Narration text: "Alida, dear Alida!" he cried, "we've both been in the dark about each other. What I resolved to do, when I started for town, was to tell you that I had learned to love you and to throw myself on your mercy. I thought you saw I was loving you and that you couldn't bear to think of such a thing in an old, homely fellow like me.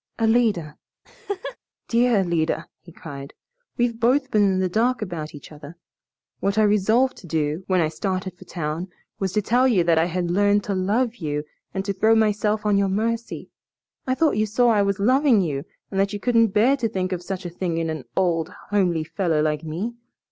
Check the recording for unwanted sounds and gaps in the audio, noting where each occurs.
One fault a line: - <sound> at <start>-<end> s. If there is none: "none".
- laugh at 1.0-1.6 s